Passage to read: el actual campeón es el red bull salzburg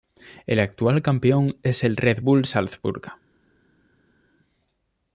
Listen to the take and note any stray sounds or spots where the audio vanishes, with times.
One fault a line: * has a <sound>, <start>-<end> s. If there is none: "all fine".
all fine